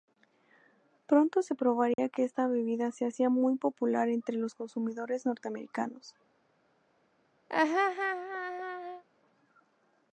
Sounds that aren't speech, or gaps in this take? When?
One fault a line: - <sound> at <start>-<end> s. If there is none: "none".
- dropout at 1.9-2.0 s
- laugh at 7.5-9.0 s